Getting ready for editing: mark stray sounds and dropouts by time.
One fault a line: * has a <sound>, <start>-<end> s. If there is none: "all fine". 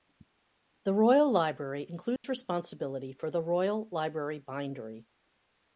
* has a dropout, 2.2-2.2 s